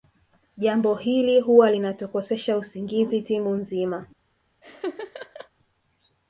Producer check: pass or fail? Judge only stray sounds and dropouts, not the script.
fail